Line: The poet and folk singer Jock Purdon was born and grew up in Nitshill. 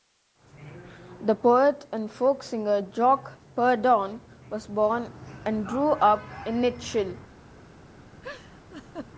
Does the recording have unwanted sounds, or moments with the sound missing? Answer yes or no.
yes